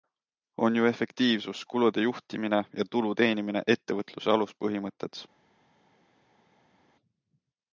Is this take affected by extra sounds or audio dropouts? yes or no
no